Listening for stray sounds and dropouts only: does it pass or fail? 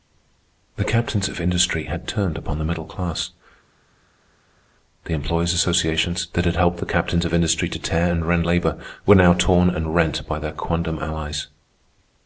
pass